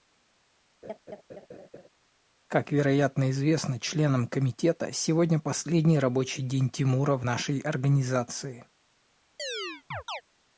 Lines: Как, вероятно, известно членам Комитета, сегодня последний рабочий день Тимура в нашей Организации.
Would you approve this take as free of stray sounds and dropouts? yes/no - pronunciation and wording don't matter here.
no